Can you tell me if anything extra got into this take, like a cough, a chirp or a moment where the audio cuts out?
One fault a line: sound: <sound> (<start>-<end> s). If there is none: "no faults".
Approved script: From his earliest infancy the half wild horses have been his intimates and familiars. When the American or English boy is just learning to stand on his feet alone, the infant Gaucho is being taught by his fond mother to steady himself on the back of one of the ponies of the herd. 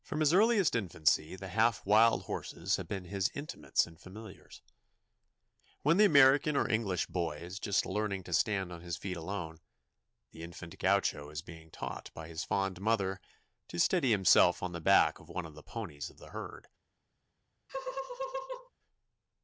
sound: laugh (17.7-18.7 s)